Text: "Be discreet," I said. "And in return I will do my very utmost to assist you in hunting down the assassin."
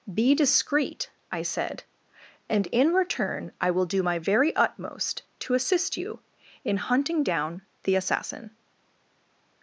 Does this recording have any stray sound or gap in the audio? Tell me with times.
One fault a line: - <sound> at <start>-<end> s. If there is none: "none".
none